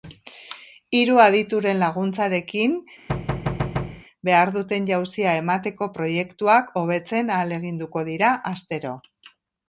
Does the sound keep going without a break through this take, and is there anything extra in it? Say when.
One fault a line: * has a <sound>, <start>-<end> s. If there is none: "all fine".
* has a thud, 3.1-4.0 s